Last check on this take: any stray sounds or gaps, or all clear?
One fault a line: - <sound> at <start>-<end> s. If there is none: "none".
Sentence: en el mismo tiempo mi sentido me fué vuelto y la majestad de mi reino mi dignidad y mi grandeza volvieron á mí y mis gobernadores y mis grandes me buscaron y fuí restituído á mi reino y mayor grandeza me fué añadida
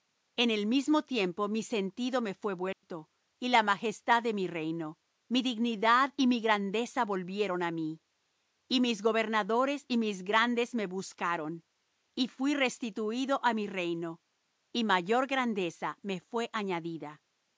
- dropout at 2.7-2.8 s